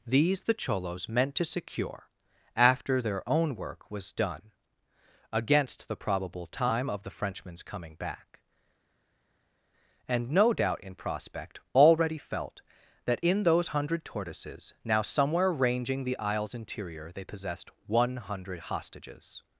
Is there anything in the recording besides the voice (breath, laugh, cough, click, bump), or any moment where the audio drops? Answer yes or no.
no